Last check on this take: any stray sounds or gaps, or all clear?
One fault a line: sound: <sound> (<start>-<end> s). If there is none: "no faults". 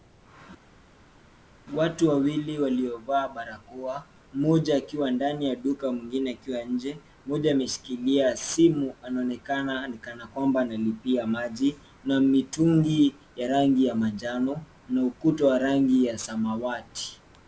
no faults